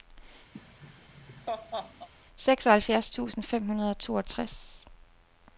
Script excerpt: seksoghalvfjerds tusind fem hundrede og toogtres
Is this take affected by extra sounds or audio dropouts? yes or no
yes